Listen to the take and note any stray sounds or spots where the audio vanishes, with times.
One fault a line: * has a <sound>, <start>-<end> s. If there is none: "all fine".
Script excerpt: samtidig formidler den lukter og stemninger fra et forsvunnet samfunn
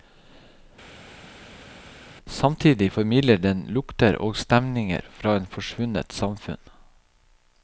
all fine